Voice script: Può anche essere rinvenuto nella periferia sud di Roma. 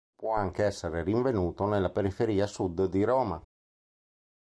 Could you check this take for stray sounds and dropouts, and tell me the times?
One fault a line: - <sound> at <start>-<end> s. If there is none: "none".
none